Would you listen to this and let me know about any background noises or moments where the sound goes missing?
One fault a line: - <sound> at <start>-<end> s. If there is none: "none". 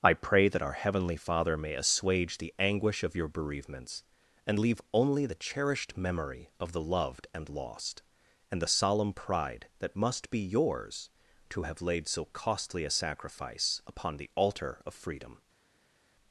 none